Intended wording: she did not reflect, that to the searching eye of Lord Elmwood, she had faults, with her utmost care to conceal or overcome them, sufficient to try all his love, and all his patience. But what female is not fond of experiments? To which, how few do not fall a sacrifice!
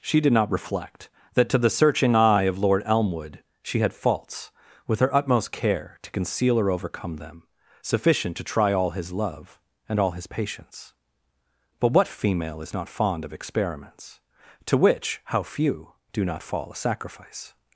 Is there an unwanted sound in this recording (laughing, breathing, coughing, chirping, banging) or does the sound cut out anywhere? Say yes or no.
no